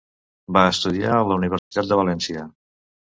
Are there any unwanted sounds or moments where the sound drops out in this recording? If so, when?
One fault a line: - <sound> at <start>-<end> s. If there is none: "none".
- dropout at 1.6-1.7 s